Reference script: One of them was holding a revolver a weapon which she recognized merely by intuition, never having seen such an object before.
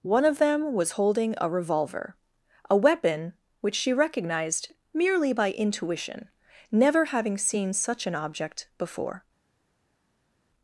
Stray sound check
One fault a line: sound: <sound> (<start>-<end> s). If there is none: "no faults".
no faults